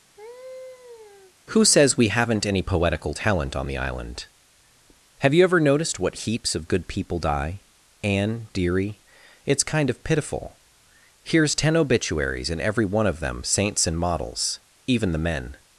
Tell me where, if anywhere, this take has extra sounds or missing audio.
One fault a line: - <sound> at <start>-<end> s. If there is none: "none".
- laugh at 0.2-1.3 s